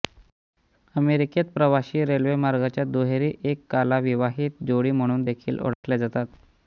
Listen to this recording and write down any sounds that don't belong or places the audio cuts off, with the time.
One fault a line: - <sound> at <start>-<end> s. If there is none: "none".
- dropout at 5.7-5.8 s